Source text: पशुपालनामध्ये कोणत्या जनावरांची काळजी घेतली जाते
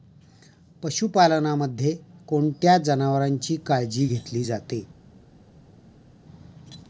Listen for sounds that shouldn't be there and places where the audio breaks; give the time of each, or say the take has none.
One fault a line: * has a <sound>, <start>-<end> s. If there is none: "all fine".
all fine